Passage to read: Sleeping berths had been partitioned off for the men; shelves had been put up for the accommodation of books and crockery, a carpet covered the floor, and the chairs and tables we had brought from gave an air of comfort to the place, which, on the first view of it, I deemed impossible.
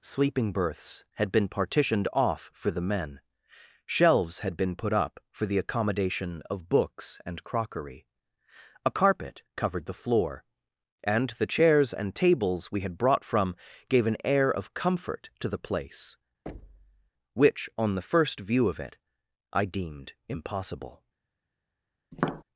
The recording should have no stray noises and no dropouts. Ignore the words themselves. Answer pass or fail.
fail